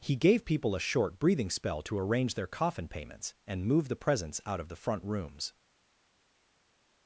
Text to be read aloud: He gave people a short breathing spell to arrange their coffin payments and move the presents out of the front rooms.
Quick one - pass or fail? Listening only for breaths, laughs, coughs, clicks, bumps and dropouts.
pass